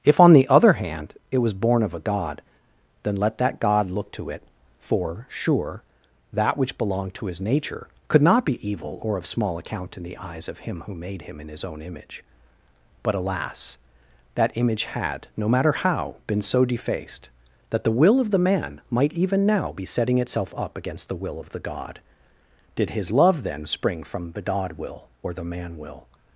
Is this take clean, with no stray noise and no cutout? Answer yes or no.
yes